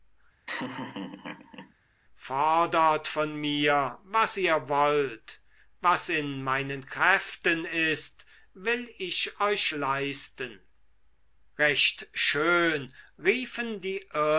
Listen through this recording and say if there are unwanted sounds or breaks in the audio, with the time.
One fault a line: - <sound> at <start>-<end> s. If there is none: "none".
- laugh at 0.5-1.7 s